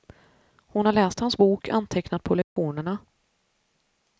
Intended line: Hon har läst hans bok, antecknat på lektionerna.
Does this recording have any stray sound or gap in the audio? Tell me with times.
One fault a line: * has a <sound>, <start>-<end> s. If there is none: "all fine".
* has a dropout, 2.4-2.6 s